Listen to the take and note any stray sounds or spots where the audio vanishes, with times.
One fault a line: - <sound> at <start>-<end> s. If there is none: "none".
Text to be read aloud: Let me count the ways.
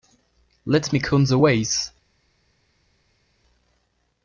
none